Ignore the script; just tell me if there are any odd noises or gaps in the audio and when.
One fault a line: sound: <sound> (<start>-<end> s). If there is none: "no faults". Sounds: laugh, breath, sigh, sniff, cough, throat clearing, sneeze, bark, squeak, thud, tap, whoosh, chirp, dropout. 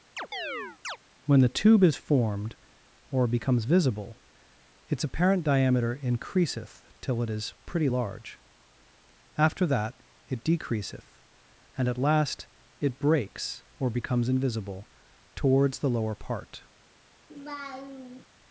sound: chirp (0.2-1.0 s)
sound: laugh (17.3-18.2 s)